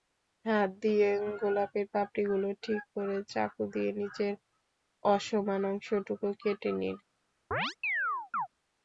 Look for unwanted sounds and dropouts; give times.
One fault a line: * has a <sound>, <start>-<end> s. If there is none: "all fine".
* has a chirp, 7.5-8.5 s